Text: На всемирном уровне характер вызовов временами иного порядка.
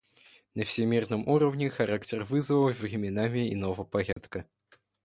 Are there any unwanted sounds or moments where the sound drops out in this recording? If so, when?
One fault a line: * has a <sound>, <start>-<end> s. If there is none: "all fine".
* has a dropout, 4.1-4.2 s